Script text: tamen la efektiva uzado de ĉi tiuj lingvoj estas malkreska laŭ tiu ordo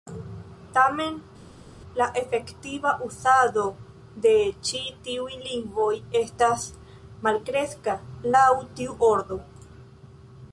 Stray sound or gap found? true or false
false